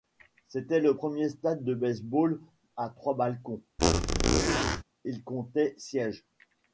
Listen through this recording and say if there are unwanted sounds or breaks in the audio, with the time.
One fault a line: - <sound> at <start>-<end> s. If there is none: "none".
- squeak at 3.8-4.8 s